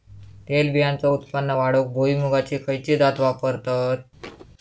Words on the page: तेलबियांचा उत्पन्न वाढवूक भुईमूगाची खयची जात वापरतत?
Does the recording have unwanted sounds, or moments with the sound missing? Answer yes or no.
yes